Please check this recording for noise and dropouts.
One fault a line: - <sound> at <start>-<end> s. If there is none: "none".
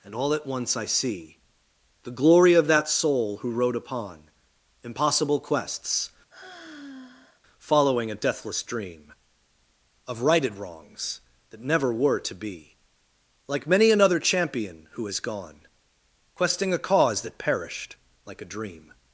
- sigh at 6.3-7.4 s